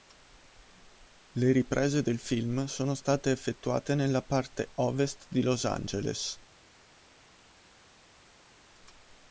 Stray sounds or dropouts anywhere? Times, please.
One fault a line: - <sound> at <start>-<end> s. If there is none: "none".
none